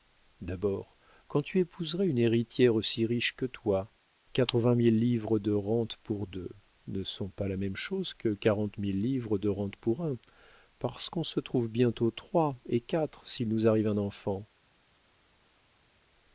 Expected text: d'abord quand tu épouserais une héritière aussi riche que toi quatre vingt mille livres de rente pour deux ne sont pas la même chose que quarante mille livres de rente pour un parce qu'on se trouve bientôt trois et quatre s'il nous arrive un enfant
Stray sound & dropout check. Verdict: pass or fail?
pass